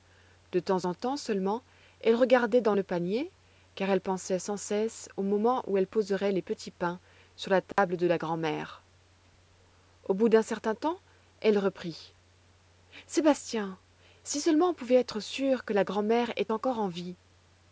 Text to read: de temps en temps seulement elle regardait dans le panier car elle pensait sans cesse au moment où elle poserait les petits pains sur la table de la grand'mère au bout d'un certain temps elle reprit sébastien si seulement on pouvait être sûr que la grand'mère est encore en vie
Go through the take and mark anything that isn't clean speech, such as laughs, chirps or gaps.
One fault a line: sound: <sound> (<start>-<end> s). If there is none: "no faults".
sound: dropout (7.7-7.8 s)